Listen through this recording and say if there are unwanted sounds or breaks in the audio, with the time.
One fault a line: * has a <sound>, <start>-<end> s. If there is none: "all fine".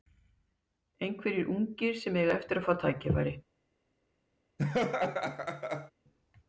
* has a laugh, 4.6-5.9 s